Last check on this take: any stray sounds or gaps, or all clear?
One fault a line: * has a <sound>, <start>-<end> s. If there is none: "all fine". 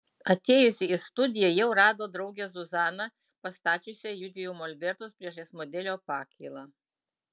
all fine